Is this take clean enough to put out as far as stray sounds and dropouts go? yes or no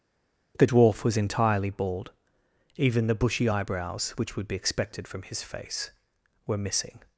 yes